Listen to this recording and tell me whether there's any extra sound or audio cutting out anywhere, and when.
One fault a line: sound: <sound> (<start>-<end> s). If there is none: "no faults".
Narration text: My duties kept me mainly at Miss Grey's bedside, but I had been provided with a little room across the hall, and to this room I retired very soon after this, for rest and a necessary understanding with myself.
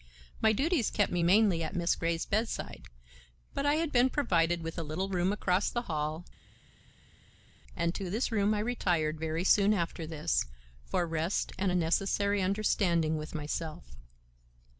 no faults